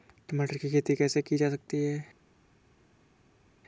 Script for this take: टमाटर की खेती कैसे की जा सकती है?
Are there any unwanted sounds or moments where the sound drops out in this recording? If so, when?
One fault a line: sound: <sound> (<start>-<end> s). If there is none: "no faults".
no faults